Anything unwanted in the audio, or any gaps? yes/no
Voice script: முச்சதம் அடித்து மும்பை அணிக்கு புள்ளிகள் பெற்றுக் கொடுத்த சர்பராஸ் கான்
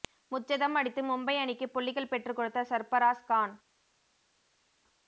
no